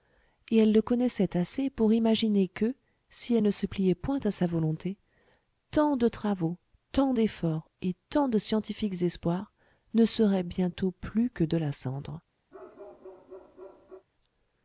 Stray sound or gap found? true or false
true